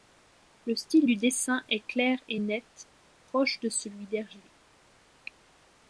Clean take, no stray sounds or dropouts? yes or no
yes